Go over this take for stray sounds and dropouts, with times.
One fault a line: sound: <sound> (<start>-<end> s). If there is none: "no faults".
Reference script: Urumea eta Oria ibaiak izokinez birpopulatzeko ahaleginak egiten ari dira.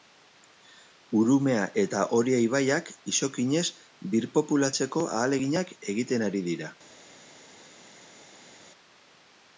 no faults